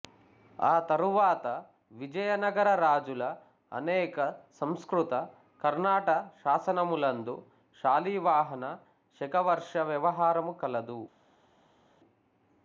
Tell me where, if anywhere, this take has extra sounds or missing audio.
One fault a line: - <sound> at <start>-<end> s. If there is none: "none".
none